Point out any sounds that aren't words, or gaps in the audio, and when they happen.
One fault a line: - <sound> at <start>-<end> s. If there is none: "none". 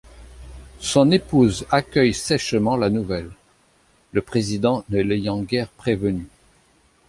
none